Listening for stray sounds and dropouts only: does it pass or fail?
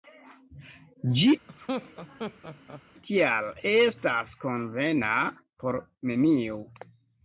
fail